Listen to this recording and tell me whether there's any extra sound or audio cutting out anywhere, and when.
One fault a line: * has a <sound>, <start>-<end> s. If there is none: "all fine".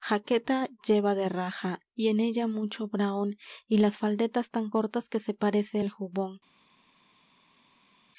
all fine